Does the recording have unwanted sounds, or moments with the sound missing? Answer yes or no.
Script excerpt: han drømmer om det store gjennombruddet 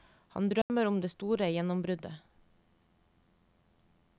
yes